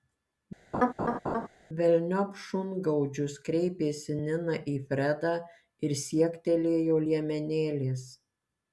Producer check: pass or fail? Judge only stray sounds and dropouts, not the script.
fail